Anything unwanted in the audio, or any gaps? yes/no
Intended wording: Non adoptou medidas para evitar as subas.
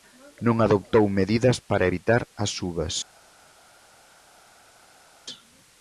no